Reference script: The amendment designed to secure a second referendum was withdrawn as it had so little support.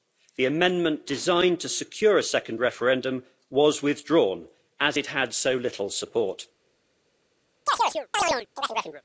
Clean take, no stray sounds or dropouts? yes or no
no